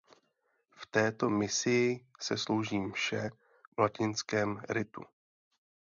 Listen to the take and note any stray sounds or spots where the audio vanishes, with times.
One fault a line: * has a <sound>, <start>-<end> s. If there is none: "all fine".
all fine